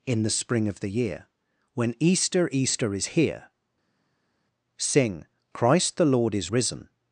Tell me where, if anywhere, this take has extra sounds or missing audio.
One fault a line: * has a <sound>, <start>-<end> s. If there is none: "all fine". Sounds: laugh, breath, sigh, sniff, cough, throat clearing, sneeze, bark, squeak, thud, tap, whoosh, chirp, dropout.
all fine